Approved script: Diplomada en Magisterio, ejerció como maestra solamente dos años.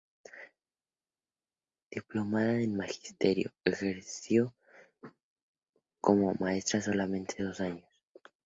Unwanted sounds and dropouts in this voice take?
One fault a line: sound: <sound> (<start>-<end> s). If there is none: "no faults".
no faults